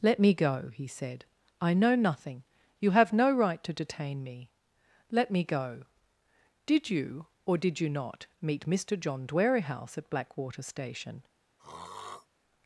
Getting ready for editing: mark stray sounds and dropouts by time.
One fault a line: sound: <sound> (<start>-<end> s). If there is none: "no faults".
sound: throat clearing (11.6-12.3 s)